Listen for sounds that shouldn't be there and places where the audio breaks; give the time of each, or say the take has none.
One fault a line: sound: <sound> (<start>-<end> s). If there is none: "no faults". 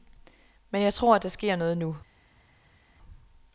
no faults